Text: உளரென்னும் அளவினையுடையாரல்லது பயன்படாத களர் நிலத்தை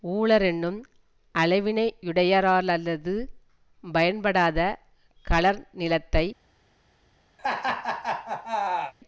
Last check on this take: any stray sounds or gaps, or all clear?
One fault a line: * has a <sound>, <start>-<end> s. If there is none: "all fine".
* has a laugh, 7.4-8.9 s